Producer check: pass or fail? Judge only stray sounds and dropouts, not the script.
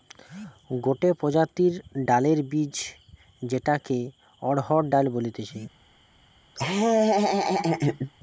fail